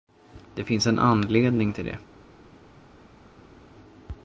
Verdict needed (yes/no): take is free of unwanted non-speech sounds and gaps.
yes